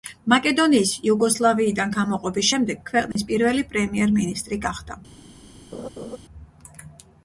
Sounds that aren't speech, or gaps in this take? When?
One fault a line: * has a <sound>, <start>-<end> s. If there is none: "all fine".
* has a dropout, 3.1-3.2 s
* has a laugh, 5.7-6.2 s